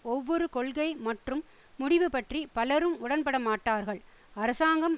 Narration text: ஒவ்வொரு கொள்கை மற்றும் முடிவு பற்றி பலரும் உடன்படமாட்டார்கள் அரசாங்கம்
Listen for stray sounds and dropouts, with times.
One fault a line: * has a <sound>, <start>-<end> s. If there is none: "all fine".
all fine